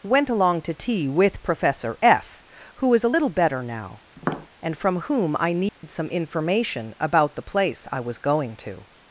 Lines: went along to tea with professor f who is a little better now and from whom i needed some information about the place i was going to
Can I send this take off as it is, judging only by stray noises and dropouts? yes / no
no